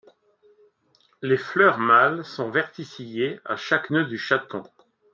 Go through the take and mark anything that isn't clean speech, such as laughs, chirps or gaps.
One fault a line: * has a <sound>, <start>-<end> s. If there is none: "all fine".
all fine